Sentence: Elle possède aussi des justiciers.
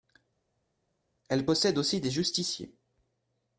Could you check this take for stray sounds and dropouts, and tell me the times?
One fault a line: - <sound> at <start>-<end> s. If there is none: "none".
none